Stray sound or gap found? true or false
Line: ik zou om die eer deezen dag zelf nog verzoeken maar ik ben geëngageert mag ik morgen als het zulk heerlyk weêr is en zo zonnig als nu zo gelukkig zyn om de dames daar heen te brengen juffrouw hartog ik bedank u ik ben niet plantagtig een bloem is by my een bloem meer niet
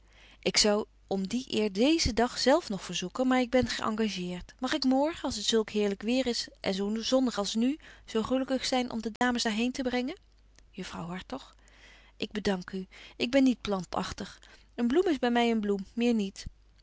true